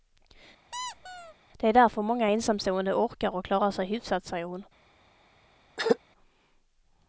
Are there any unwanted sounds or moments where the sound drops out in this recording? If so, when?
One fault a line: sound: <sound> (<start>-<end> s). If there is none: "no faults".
sound: squeak (0.7-1.3 s)
sound: throat clearing (5.8-6.0 s)